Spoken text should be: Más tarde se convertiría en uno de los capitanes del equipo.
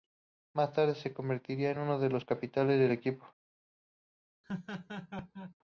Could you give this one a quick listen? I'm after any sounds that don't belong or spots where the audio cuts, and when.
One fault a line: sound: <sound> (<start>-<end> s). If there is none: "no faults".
sound: laugh (4.4-5.5 s)